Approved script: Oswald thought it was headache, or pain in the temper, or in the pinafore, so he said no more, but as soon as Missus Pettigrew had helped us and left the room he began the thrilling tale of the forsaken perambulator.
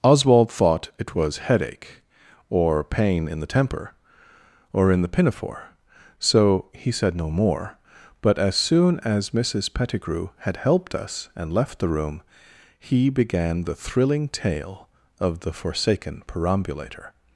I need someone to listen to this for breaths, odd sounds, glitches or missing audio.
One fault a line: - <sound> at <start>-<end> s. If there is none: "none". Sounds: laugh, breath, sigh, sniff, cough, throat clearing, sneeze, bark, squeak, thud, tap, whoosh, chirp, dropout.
none